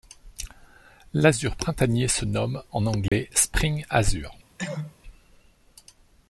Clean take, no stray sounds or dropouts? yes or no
no